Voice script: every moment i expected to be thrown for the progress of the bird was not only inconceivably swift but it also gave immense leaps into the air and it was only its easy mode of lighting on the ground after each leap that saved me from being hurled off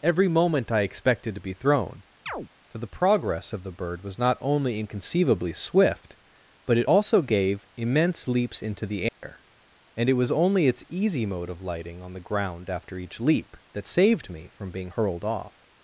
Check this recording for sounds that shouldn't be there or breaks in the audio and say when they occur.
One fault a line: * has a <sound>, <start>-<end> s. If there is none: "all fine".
* has a chirp, 2.3-2.5 s
* has a dropout, 9.1-9.2 s